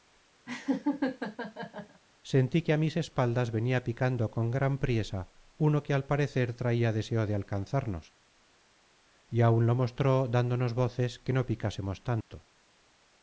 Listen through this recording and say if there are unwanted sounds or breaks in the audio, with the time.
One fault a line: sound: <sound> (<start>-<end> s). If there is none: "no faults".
sound: laugh (0.5-2.0 s)
sound: dropout (12.2-12.3 s)